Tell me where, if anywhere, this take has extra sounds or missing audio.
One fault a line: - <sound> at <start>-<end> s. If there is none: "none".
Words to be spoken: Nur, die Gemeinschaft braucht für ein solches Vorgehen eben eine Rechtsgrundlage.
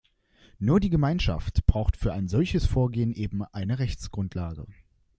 none